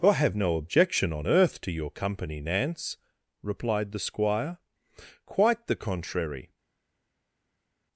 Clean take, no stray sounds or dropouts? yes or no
yes